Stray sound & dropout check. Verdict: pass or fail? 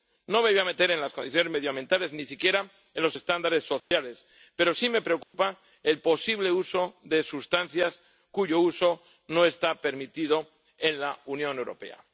fail